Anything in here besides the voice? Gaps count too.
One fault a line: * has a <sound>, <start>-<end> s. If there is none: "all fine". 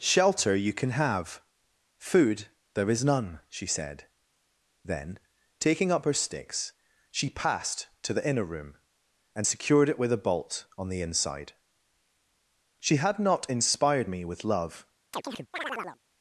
* has a chirp, 15.1-16.0 s